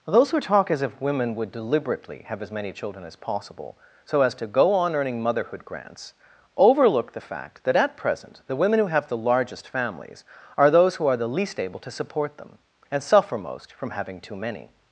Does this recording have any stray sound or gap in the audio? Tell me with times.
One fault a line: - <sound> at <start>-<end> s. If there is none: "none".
none